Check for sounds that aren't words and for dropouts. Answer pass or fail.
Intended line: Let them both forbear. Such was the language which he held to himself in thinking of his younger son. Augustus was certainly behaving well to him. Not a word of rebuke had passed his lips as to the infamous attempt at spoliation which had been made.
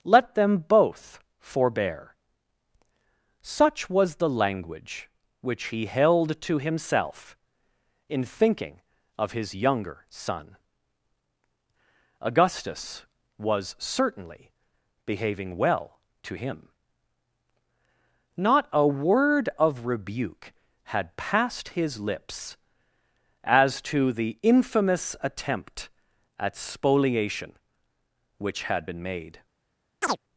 fail